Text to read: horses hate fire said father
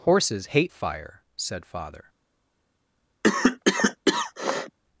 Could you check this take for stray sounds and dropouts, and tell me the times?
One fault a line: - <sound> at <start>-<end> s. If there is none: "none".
- cough at 3.2-4.8 s